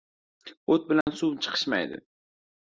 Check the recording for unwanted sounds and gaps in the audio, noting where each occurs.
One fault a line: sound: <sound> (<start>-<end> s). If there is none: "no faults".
sound: dropout (1.0-1.1 s)